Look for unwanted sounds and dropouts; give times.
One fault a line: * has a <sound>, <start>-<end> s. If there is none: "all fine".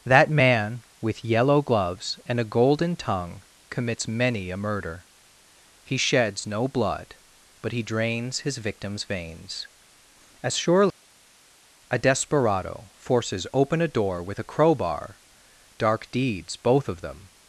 all fine